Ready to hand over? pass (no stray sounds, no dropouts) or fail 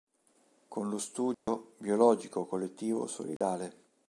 fail